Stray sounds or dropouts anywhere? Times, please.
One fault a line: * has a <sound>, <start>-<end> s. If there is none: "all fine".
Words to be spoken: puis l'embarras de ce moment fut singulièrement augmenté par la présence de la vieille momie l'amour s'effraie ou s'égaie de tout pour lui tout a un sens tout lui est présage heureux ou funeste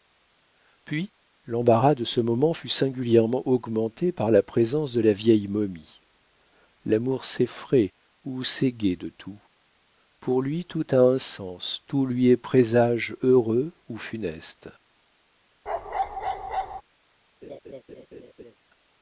* has a bark, 15.7-16.8 s
* has a laugh, 17.4-18.6 s